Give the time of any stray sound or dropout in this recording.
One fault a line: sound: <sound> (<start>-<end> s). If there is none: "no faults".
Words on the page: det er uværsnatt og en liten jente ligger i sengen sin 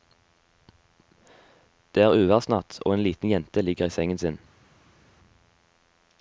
no faults